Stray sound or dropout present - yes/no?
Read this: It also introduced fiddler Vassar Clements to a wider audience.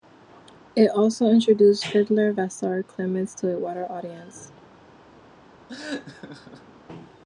yes